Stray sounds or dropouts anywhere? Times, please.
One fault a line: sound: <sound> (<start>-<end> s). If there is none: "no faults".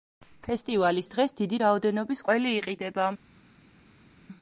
no faults